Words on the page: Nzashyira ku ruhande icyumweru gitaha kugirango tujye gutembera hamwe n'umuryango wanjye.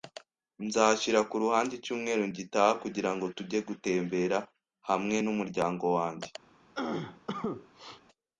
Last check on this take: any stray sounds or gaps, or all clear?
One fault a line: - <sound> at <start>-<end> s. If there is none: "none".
- cough at 6.7-8.0 s